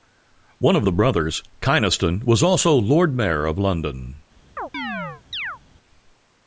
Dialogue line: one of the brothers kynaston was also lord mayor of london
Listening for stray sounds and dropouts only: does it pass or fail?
fail